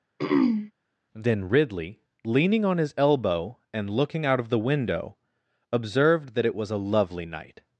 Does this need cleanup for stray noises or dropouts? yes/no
yes